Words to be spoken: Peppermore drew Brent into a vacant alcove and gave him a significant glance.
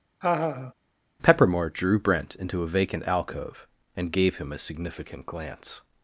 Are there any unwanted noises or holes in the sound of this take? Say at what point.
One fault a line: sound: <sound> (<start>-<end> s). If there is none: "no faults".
sound: laugh (0.2-0.7 s)